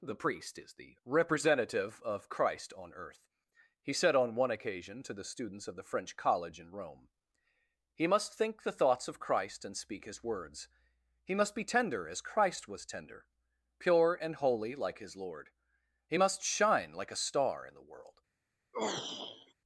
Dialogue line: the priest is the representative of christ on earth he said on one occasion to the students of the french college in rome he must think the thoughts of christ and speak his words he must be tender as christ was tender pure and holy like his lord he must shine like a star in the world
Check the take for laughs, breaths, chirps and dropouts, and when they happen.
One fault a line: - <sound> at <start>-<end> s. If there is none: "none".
- throat clearing at 18.7-19.5 s